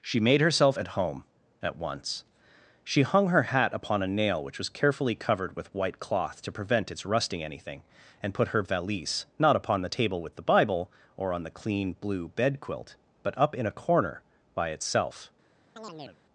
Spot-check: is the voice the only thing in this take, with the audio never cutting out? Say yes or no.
no